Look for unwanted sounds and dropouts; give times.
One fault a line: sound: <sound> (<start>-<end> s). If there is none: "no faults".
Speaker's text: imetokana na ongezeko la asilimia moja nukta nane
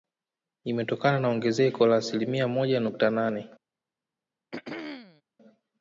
sound: throat clearing (4.5-5.2 s)